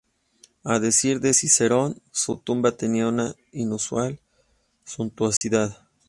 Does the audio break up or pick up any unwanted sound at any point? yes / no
yes